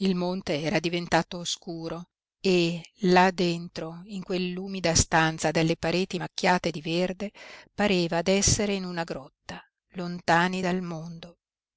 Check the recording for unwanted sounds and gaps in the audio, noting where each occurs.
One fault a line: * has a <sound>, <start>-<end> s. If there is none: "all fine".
all fine